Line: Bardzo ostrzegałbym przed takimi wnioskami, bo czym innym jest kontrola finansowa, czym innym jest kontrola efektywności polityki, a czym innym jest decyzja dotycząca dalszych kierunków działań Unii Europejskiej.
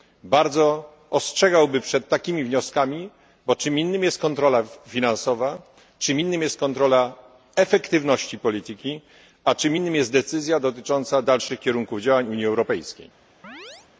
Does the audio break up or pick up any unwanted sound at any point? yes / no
yes